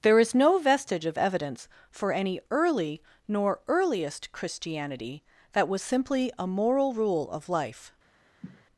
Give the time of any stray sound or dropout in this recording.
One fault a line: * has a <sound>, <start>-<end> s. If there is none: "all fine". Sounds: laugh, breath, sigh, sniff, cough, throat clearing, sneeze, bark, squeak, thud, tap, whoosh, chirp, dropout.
* has a sniff, 8.4-8.7 s